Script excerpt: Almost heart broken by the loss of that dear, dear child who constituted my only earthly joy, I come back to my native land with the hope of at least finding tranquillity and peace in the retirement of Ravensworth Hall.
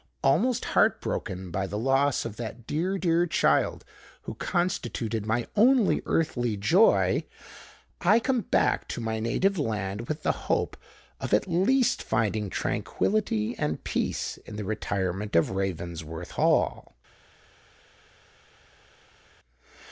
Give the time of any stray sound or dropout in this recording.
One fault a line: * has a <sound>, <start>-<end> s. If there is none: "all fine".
all fine